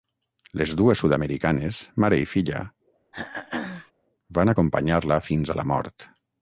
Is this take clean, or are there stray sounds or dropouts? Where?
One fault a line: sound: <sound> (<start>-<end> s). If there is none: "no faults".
sound: throat clearing (3.1-3.9 s)